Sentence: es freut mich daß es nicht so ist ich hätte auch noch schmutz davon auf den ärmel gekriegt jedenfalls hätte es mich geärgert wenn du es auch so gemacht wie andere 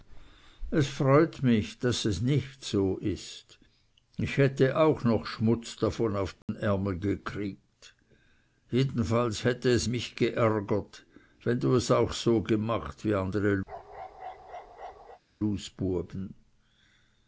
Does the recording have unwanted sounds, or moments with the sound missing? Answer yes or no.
yes